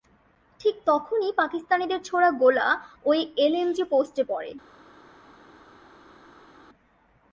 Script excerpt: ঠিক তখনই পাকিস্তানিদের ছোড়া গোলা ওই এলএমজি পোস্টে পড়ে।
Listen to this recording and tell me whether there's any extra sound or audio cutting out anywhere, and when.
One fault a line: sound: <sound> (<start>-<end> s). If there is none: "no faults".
no faults